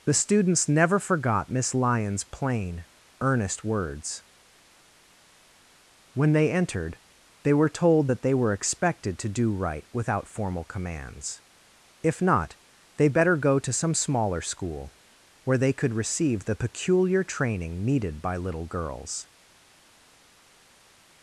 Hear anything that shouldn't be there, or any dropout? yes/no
no